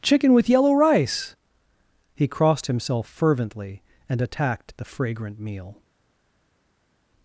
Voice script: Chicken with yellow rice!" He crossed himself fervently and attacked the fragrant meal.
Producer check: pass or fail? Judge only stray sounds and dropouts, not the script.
pass